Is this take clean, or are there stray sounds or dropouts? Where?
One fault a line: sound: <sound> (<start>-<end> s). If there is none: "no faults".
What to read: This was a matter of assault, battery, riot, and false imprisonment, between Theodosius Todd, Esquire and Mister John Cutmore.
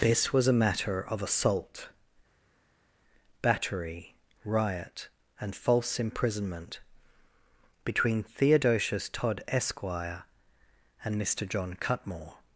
no faults